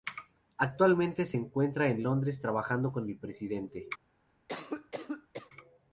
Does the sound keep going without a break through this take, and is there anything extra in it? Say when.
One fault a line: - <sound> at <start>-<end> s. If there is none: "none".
- cough at 4.5-5.5 s